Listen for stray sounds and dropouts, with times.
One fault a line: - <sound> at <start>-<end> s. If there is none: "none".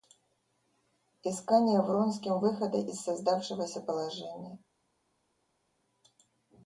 none